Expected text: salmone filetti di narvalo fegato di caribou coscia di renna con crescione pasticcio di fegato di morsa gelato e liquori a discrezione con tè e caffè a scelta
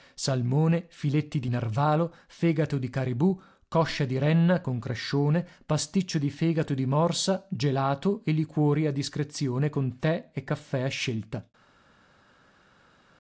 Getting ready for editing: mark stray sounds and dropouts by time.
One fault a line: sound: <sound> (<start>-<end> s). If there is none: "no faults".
no faults